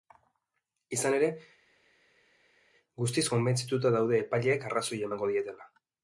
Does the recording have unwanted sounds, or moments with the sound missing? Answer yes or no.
no